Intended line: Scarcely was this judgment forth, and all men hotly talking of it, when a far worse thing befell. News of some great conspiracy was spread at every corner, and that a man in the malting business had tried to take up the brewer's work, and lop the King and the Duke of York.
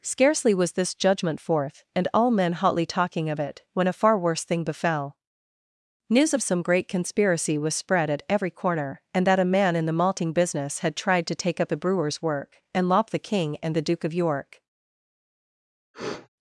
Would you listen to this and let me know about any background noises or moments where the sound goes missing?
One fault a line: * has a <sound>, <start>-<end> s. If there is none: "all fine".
* has a sniff, 15.9-16.3 s